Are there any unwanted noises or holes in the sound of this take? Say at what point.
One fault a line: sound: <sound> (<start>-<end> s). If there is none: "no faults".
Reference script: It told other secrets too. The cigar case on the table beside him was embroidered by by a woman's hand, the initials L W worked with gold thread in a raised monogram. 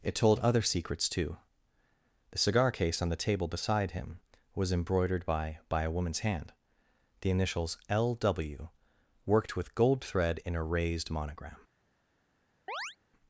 sound: chirp (12.7-13.0 s)